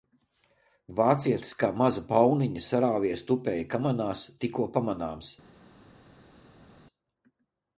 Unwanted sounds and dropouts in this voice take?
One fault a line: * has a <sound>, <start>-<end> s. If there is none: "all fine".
all fine